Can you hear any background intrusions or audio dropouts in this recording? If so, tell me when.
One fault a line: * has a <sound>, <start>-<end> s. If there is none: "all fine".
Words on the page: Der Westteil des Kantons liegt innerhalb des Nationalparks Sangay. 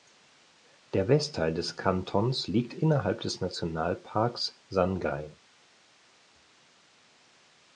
all fine